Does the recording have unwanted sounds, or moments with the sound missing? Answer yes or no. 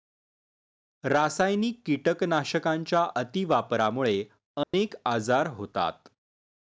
yes